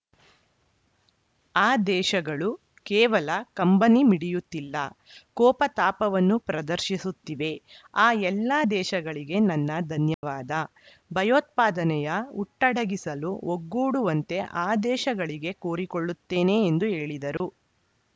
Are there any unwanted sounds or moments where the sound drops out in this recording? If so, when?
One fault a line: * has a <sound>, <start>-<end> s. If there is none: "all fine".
* has a dropout, 10.1-10.2 s
* has a dropout, 17.4-17.4 s